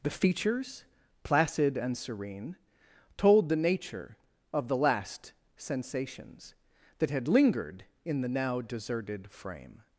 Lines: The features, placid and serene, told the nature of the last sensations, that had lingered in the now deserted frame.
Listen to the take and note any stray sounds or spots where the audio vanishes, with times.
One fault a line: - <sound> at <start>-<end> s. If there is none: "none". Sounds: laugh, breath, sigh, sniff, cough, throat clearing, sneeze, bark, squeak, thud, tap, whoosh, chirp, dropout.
none